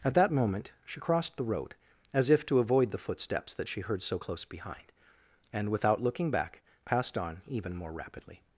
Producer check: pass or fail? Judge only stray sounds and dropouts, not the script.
pass